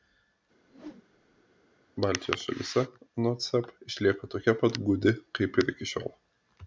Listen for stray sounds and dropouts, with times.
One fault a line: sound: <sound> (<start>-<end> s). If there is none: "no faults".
sound: whoosh (0.6-1.5 s)